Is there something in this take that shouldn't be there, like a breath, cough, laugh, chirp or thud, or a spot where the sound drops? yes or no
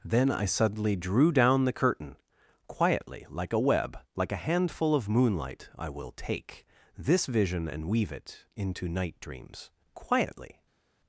no